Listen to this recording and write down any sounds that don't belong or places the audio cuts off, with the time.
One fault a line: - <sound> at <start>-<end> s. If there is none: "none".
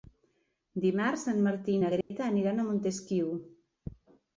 - dropout at 2.0-2.1 s